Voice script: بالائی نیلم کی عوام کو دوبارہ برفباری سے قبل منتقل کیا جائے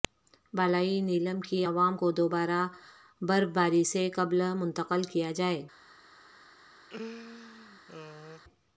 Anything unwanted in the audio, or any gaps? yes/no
yes